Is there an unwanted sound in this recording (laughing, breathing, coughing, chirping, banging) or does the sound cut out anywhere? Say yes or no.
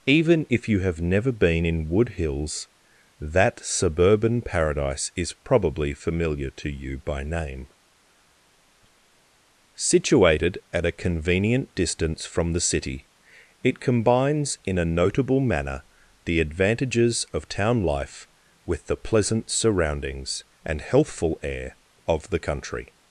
no